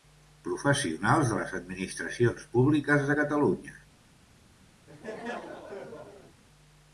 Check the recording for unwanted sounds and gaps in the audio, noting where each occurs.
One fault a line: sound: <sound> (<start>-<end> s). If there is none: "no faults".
sound: laugh (4.9-6.4 s)